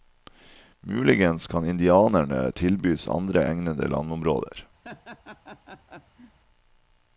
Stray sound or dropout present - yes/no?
yes